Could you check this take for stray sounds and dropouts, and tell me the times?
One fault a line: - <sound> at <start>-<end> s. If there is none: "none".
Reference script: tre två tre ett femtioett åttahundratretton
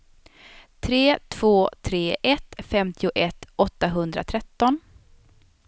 none